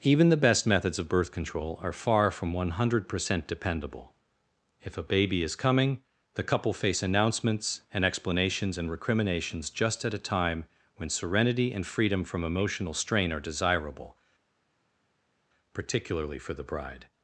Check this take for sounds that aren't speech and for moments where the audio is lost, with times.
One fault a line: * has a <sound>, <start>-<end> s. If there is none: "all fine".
all fine